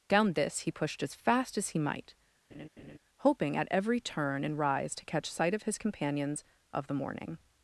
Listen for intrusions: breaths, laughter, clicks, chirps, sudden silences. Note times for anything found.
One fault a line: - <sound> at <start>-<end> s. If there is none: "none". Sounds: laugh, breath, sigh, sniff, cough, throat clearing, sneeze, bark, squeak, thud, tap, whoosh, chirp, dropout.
- laugh at 2.5-3.0 s